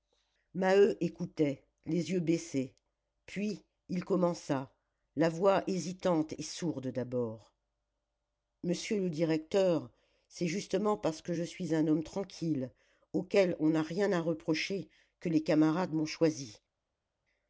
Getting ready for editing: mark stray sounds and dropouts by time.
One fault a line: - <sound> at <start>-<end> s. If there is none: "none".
none